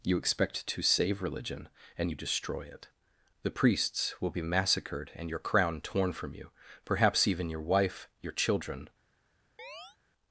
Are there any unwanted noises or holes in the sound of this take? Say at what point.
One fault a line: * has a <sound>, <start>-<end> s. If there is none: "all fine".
* has a chirp, 9.6-10.0 s